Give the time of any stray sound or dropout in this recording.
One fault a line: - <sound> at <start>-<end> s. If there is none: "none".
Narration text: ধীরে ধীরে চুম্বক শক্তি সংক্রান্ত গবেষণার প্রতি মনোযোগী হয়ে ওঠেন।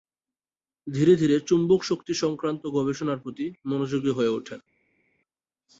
none